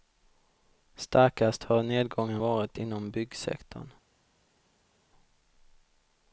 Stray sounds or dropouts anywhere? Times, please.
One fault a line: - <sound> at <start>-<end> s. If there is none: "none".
none